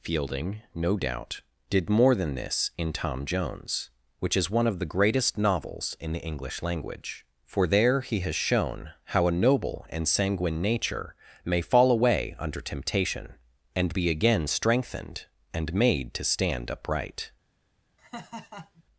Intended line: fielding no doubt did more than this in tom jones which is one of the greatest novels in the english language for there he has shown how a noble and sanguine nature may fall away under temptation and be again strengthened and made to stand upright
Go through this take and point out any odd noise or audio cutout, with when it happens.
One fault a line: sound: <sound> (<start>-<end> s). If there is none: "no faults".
sound: laugh (18.0-18.8 s)